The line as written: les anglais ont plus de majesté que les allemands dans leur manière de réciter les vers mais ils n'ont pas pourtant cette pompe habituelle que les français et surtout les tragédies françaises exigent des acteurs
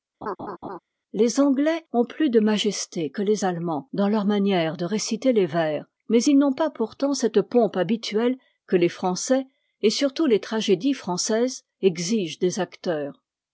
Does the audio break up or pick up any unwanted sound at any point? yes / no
yes